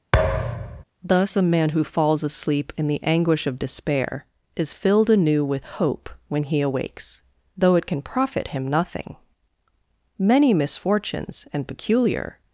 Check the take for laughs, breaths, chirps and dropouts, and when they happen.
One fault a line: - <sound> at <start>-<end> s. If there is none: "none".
- thud at 0.1-0.8 s